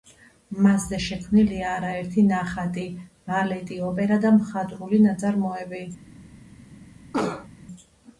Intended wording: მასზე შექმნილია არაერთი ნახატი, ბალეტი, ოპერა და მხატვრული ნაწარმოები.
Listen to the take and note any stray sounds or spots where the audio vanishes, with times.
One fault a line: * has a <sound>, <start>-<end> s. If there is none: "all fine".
* has a cough, 7.1-7.5 s